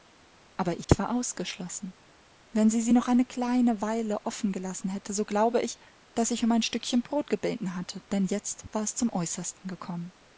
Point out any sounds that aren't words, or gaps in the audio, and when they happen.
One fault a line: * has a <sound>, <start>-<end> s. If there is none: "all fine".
* has a dropout, 0.8-0.9 s